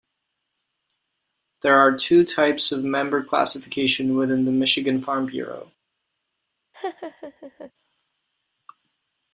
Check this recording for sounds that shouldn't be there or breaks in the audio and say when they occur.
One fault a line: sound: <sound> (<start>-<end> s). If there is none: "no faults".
sound: laugh (6.7-7.7 s)